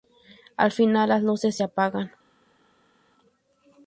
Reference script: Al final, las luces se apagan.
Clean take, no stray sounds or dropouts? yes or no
yes